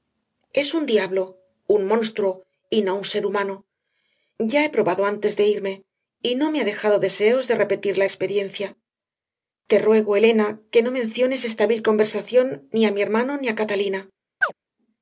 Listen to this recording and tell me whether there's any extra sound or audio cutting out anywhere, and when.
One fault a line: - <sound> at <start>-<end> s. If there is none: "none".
- chirp at 14.4-14.5 s